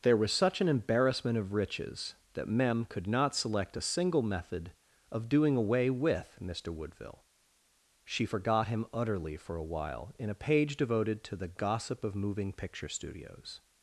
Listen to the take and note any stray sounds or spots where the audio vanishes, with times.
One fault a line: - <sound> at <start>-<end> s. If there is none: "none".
none